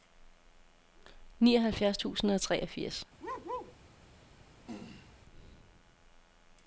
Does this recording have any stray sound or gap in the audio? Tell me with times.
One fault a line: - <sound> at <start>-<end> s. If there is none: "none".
- bark at 3.2-3.7 s
- throat clearing at 4.7-5.1 s